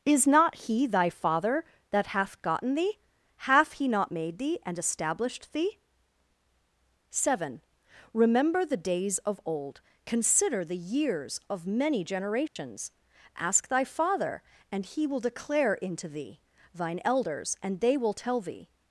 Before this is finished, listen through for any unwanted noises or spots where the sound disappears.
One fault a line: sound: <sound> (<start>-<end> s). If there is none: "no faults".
sound: dropout (12.5-12.6 s)